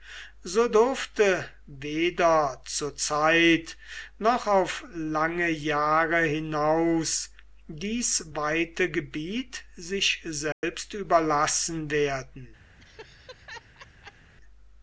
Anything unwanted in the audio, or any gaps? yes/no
yes